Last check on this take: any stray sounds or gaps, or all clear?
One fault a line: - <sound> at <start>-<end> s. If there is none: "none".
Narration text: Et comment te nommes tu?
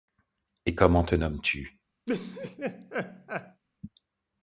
- laugh at 2.1-3.6 s